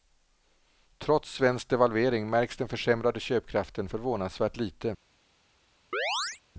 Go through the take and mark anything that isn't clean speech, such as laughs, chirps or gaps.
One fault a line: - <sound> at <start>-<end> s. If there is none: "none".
- chirp at 5.9-6.4 s